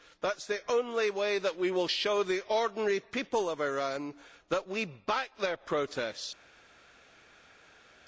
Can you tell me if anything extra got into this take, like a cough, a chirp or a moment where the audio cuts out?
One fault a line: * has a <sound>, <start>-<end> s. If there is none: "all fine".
all fine